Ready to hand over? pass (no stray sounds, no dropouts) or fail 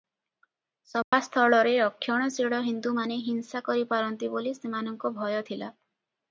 fail